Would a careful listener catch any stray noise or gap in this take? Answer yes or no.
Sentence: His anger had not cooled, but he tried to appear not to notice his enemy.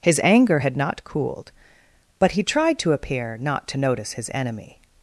no